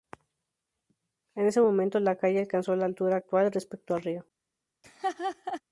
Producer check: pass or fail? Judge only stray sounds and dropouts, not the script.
fail